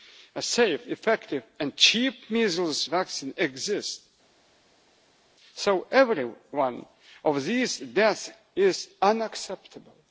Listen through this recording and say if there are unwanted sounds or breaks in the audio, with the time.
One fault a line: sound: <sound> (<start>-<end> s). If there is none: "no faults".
no faults